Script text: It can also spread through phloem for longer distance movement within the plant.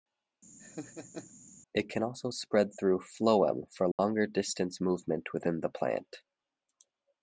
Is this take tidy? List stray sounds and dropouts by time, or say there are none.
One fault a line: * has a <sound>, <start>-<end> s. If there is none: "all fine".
* has a laugh, 0.6-1.3 s
* has a dropout, 3.9-4.0 s